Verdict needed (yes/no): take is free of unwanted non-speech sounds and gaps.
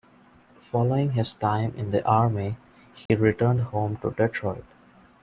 no